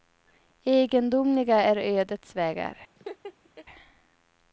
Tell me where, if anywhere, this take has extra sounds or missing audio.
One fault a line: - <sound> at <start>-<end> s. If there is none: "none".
- laugh at 3.0-3.7 s